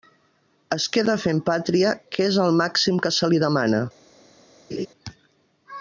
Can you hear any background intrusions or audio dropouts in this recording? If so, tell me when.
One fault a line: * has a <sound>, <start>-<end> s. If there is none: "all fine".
* has a laugh, 4.7-4.9 s